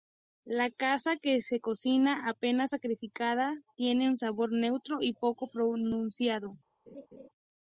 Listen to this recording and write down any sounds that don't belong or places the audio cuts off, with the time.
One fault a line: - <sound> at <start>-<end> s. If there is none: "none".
- laugh at 6.9-7.3 s